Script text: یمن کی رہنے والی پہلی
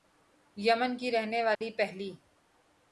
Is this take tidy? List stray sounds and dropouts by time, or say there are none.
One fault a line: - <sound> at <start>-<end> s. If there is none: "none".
- dropout at 1.5-1.6 s